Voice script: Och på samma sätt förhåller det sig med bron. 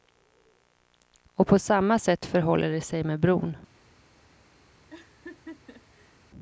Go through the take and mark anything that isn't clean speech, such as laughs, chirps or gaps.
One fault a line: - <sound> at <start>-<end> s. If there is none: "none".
- laugh at 4.9-6.2 s